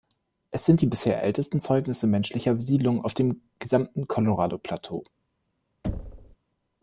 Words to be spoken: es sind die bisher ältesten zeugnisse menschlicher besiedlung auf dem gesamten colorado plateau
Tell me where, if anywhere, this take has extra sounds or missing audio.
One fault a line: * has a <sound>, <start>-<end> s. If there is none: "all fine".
* has a thud, 5.8-6.4 s